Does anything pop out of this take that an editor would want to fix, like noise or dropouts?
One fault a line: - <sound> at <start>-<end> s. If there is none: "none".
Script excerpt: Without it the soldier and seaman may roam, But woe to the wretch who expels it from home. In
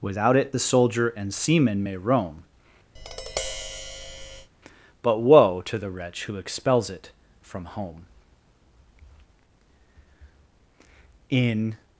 - tap at 3.0-4.5 s